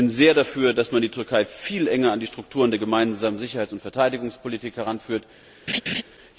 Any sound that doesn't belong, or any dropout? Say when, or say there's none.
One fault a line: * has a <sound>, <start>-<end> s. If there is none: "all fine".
* has a laugh, 5.7-6.0 s